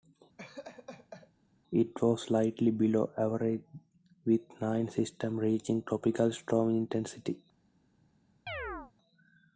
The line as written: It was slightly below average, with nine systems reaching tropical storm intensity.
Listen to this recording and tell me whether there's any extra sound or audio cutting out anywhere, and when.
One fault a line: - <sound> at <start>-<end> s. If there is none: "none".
- laugh at 0.4-1.3 s
- chirp at 8.5-8.9 s